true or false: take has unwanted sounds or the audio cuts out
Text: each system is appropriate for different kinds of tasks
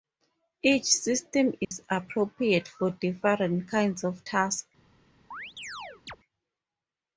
true